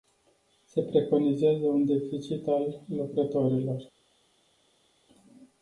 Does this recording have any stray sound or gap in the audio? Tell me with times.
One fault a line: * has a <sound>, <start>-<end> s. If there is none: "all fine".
all fine